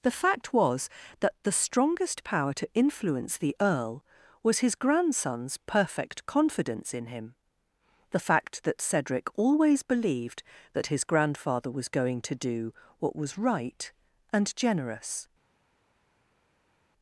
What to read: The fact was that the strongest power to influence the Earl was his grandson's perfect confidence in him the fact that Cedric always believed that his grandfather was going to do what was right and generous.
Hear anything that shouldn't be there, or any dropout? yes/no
no